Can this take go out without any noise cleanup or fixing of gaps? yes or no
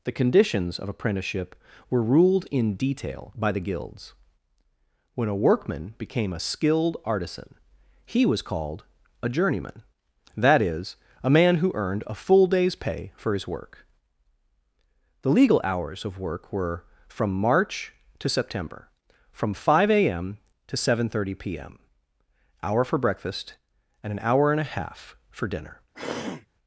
no